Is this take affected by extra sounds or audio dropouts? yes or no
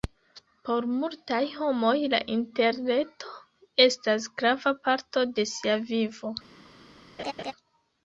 yes